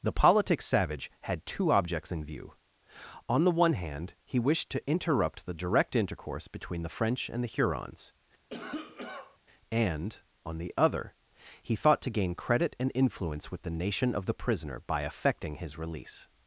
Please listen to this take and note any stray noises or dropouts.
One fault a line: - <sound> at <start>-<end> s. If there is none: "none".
- cough at 8.5-9.4 s